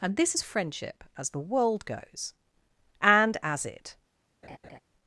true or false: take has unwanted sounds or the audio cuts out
true